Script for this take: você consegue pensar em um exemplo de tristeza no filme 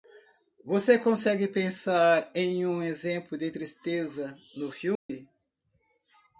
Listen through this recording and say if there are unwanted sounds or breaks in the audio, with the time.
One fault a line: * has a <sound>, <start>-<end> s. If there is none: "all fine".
* has a dropout, 5.0-5.1 s